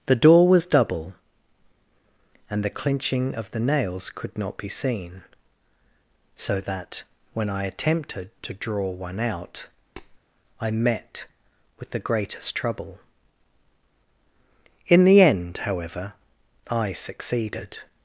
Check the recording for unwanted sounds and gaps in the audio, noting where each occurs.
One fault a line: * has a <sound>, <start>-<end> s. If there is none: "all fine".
* has a tap, 10.0-10.2 s